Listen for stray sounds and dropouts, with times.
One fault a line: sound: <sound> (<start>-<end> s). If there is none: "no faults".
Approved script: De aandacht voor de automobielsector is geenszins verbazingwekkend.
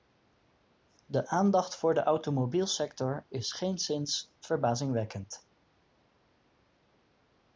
no faults